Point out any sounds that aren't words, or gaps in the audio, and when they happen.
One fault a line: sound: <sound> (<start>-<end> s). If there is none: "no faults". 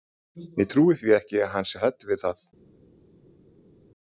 no faults